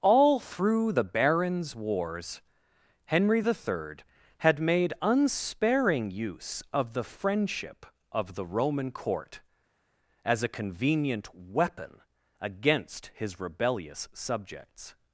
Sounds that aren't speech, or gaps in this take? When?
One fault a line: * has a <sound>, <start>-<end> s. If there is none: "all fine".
all fine